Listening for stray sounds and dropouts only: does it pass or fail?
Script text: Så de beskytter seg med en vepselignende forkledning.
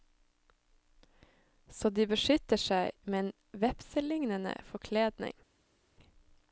pass